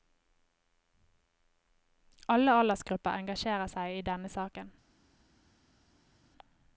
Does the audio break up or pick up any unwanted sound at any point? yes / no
no